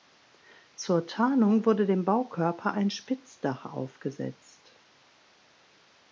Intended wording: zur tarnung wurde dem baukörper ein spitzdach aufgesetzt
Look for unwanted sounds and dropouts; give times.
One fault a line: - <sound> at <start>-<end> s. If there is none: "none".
none